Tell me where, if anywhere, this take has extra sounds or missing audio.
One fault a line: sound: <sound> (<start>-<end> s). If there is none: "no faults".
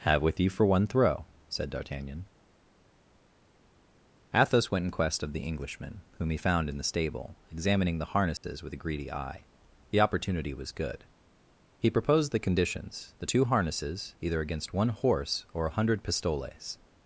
sound: dropout (8.4-8.4 s)